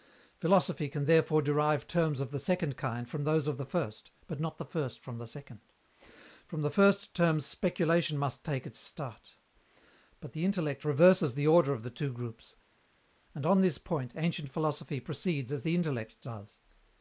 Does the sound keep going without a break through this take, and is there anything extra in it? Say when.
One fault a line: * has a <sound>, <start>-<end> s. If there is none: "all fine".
all fine